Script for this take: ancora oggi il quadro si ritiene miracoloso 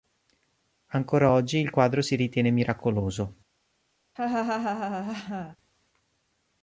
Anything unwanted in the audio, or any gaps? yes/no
yes